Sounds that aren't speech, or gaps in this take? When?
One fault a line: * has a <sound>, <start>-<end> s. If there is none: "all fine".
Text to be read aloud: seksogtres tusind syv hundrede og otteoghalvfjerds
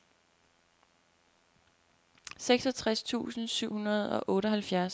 all fine